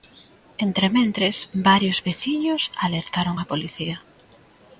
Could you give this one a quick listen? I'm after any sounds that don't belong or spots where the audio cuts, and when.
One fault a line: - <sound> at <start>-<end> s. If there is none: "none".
none